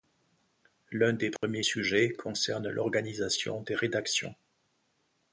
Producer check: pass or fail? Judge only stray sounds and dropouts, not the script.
fail